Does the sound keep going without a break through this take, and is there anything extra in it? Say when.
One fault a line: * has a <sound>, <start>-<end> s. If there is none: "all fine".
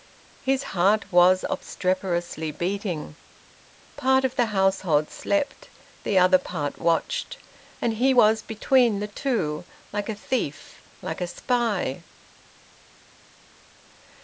all fine